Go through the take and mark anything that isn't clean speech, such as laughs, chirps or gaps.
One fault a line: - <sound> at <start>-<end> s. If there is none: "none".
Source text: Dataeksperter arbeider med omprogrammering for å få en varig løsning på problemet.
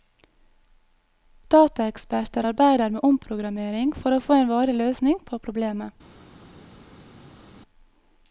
none